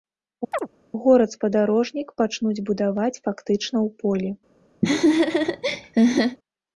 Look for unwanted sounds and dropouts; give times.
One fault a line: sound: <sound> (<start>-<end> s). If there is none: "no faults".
sound: chirp (0.5-0.7 s)
sound: laugh (4.8-6.4 s)